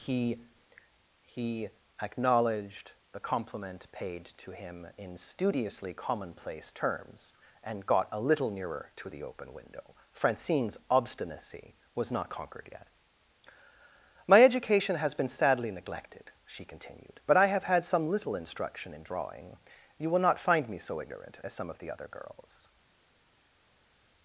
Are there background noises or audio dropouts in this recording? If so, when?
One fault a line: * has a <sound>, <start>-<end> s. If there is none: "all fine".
all fine